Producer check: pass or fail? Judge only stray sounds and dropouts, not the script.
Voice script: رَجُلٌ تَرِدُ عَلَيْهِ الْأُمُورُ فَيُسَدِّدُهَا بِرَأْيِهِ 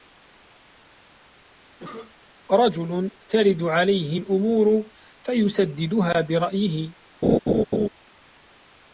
fail